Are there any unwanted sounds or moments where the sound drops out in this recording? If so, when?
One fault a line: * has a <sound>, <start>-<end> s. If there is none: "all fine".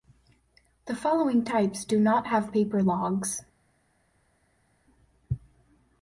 all fine